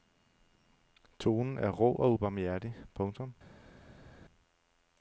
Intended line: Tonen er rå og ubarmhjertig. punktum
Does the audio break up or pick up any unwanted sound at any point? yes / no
no